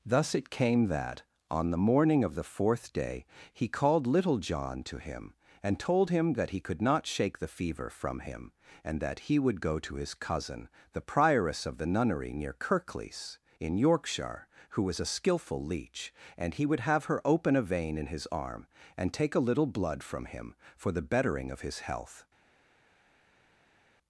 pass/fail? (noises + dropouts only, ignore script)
pass